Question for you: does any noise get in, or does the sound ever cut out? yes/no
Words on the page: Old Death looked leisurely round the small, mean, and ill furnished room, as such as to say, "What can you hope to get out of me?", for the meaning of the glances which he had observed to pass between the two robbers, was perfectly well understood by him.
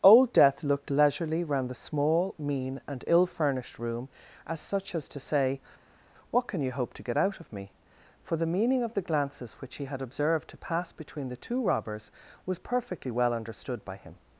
no